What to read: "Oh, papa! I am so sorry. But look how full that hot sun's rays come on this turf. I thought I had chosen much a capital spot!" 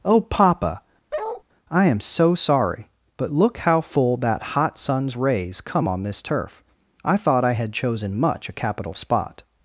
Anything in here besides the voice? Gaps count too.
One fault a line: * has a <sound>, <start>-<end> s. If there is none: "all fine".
* has a bark, 1.1-1.4 s